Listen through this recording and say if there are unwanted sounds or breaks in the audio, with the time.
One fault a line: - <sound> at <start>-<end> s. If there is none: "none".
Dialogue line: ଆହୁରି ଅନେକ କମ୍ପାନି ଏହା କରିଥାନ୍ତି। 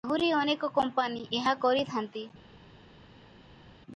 none